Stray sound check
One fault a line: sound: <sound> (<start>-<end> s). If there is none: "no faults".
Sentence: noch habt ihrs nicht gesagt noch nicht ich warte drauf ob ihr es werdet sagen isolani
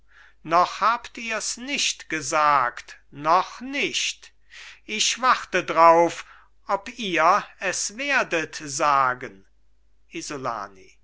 no faults